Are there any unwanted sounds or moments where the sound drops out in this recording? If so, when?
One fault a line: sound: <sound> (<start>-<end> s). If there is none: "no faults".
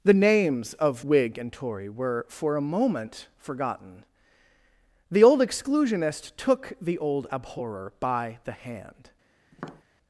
sound: tap (9.5-9.8 s)